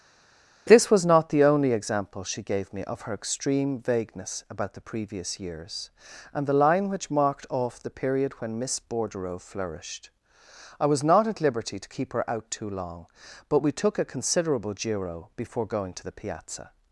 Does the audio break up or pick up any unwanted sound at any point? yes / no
no